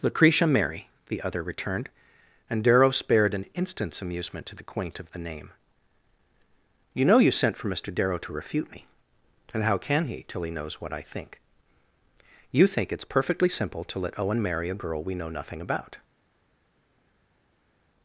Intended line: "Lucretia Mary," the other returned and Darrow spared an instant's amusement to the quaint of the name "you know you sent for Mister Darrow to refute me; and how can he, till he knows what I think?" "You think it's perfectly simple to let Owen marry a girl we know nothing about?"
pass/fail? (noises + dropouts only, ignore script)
pass